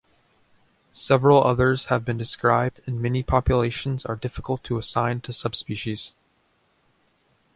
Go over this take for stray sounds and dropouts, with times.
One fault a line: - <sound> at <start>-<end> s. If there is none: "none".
none